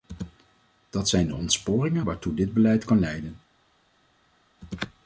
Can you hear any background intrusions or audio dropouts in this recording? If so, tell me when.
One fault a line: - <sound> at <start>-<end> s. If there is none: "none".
none